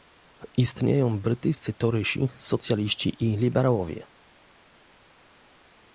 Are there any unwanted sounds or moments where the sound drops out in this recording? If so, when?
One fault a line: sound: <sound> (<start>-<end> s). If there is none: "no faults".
no faults